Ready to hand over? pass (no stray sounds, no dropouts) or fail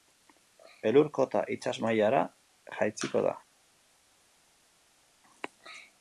pass